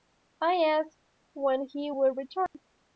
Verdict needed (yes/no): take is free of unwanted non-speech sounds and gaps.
no